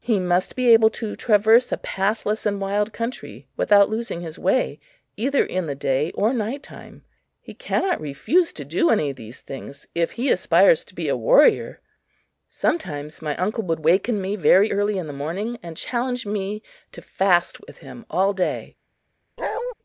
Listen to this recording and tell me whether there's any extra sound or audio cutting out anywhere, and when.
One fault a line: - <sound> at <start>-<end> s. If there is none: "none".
- bark at 19.4-19.7 s